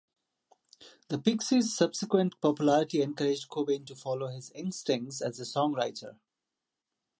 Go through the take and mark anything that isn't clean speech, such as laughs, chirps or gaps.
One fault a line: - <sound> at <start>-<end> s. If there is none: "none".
none